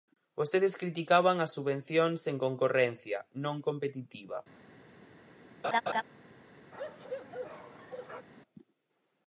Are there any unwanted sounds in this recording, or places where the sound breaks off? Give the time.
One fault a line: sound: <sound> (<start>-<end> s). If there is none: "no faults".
sound: laugh (5.6-6.0 s)
sound: bark (6.7-8.3 s)